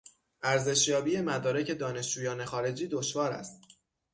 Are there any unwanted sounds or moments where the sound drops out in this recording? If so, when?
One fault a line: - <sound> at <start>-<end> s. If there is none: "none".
none